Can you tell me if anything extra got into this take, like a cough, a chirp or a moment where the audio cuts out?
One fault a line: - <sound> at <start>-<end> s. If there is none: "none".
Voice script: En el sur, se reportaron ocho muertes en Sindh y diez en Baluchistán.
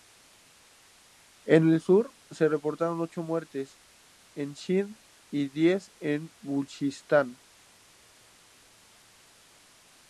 none